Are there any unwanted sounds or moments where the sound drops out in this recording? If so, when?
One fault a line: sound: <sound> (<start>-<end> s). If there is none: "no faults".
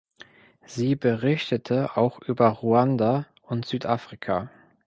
no faults